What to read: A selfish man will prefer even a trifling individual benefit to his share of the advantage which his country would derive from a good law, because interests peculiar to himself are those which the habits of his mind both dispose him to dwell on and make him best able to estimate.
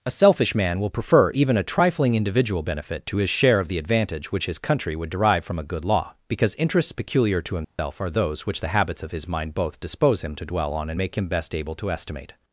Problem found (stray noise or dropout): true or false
true